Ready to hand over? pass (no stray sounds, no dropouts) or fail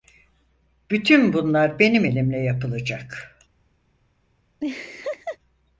fail